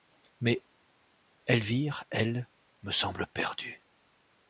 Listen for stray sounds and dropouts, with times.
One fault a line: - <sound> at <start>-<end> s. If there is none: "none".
none